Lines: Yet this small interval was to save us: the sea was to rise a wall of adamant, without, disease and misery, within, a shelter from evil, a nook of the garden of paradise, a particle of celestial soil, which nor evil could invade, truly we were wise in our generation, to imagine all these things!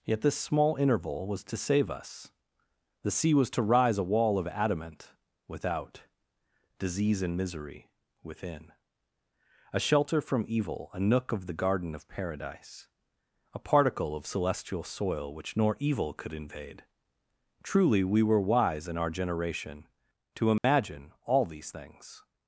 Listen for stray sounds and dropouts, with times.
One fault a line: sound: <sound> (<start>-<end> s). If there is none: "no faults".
sound: dropout (20.6-20.6 s)